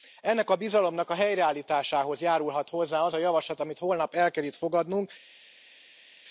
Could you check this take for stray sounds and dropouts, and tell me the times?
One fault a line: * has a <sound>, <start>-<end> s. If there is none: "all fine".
all fine